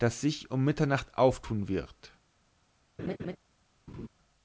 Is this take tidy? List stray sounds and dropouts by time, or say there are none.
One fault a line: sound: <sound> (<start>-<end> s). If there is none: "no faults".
sound: laugh (3.0-3.4 s)
sound: laugh (3.9-4.1 s)